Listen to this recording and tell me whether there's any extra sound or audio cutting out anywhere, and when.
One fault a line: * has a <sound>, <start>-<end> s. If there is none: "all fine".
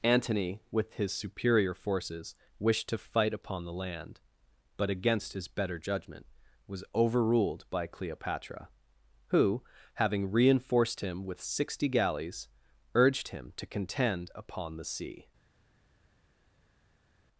all fine